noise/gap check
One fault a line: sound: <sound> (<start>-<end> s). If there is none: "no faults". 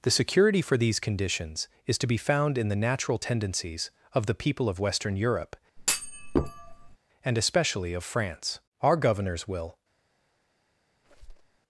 sound: thud (5.8-7.0 s)
sound: squeak (11.0-11.6 s)